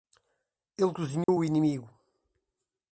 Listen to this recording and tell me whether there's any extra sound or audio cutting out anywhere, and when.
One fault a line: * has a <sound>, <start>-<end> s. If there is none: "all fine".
* has a dropout, 1.2-1.3 s